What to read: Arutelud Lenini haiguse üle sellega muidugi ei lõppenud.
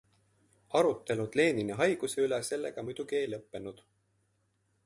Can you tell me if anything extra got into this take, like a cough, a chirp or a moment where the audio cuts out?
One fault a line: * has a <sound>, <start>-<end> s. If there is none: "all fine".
all fine